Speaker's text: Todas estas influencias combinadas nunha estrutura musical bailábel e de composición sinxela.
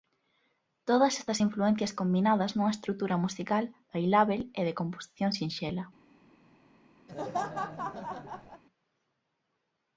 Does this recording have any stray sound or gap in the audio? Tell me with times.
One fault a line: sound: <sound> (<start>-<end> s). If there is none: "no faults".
sound: laugh (7.1-8.6 s)